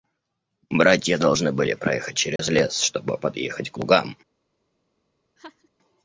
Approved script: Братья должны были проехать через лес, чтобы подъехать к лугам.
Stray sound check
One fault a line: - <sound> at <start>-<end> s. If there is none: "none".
- dropout at 2.4-2.4 s
- laugh at 5.4-5.7 s